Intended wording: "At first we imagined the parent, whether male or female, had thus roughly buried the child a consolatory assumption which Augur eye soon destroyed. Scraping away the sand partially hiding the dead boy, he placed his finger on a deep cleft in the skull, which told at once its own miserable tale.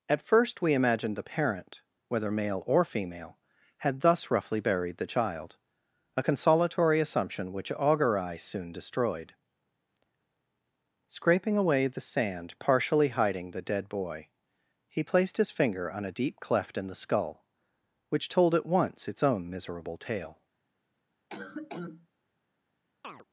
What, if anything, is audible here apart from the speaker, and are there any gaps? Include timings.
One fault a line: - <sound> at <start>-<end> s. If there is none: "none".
- cough at 21.3-22.1 s
- chirp at 23.0-23.2 s